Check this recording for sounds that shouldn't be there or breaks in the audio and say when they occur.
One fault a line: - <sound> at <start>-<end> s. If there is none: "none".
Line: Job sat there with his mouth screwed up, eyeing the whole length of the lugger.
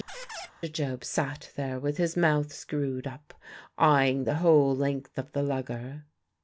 - squeak at 0.1-0.5 s